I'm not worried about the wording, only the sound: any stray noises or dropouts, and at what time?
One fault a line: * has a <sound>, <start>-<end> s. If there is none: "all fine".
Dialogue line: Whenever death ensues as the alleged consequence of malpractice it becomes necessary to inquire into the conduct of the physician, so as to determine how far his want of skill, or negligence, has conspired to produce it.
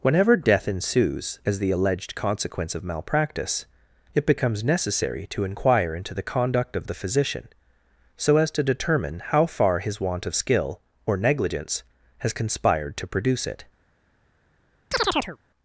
* has a chirp, 14.9-15.4 s